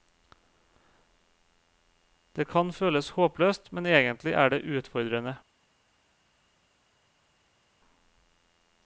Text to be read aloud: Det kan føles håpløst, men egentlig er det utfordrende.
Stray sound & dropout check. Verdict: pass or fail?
pass